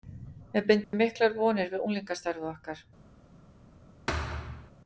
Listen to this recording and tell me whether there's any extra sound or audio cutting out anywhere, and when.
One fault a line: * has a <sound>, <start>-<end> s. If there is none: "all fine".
* has a dropout, 0.8-0.9 s
* has a thud, 4.1-4.7 s